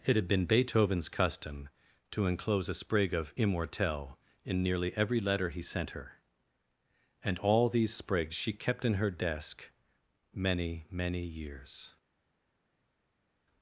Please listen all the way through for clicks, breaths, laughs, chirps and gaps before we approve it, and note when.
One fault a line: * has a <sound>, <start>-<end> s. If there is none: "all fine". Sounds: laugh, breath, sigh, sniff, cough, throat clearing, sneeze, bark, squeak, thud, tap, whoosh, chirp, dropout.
all fine